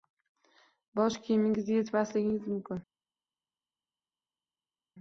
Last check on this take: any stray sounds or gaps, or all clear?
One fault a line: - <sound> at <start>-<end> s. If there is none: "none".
none